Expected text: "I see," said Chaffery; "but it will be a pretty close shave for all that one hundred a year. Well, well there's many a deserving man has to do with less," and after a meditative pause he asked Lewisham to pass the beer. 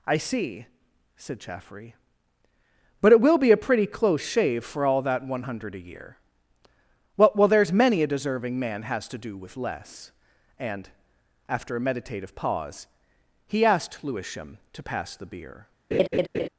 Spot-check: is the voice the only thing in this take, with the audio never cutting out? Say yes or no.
no